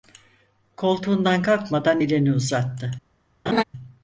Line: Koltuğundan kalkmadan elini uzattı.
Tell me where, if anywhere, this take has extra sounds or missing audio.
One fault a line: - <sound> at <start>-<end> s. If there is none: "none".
- laugh at 3.5-3.6 s